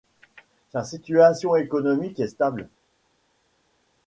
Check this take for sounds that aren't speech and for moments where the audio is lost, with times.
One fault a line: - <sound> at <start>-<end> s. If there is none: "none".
none